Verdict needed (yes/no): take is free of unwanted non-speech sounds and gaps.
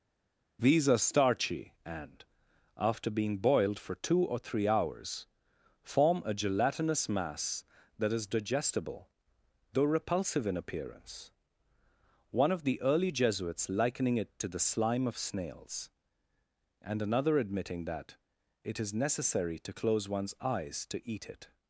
yes